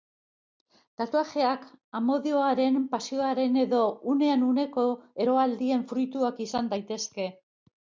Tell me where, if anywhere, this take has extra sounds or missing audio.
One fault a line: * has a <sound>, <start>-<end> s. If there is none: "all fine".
all fine